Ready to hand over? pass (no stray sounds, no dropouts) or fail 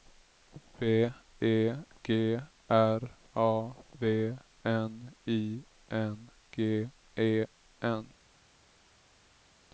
pass